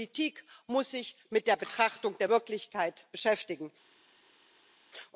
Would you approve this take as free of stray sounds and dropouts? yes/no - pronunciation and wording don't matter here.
yes